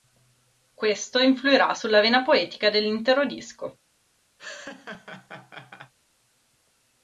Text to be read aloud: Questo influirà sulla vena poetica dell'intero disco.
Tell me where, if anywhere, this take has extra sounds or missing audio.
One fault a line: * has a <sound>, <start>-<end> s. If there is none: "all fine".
* has a laugh, 4.4-5.9 s